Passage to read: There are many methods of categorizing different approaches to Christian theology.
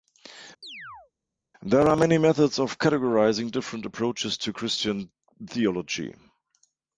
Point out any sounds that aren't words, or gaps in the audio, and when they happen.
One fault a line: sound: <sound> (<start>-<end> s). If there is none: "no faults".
sound: chirp (0.6-1.1 s)